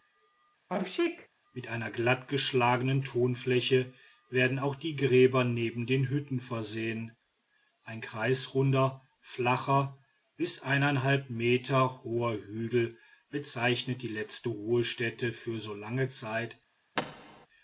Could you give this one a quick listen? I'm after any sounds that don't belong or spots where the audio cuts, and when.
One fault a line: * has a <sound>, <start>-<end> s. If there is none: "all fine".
* has a sneeze, 0.7-1.3 s
* has a thud, 17.0-17.5 s